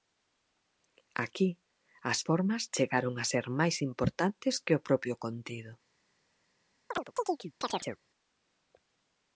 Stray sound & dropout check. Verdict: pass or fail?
fail